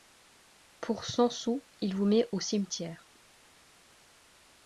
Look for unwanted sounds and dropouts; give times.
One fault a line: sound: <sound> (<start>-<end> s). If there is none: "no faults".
no faults